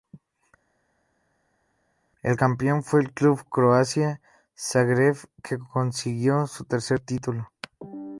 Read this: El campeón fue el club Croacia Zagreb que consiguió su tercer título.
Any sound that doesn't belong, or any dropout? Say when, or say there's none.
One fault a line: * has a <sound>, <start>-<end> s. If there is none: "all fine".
all fine